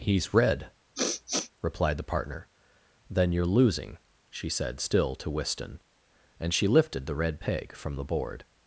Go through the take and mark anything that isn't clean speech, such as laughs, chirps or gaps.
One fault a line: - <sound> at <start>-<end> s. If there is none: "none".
- sniff at 0.9-1.5 s